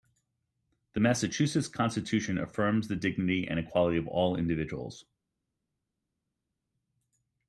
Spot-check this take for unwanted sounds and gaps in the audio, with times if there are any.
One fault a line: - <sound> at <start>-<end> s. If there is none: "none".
none